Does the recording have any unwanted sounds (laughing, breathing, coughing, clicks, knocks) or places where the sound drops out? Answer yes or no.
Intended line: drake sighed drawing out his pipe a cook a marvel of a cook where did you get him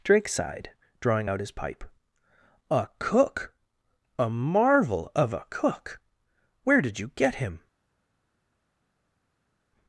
no